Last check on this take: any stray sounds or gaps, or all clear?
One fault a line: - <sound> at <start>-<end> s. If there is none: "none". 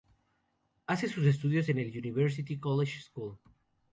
none